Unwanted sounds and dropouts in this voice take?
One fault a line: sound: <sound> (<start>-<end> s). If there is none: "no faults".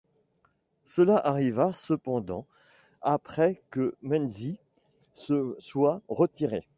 no faults